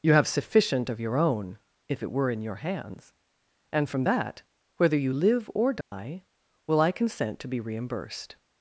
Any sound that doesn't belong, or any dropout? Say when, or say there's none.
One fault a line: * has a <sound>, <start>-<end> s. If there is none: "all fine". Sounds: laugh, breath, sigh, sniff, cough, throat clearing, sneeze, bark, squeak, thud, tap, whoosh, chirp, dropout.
* has a dropout, 5.8-5.9 s